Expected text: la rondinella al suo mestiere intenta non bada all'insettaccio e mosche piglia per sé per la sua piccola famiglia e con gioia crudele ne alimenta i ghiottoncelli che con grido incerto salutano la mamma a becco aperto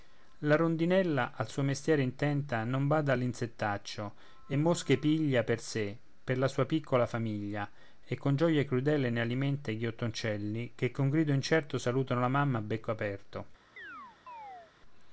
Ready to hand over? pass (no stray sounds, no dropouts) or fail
fail